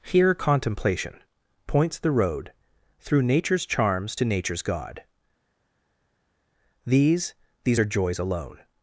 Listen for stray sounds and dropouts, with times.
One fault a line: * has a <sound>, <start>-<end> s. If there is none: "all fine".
all fine